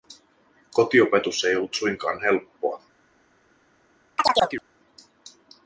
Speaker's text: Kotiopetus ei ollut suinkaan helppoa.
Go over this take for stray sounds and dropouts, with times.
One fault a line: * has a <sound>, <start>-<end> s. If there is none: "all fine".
* has a chirp, 4.2-4.6 s